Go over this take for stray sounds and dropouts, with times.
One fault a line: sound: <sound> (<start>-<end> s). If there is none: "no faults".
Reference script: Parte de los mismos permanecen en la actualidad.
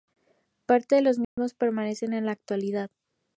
sound: dropout (1.2-1.4 s)